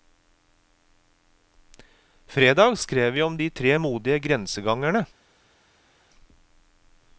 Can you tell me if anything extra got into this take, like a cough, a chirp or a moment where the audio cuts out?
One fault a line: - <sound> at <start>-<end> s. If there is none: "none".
none